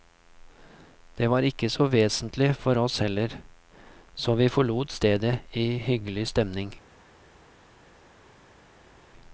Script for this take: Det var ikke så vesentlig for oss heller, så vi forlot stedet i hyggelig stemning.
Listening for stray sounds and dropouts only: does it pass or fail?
pass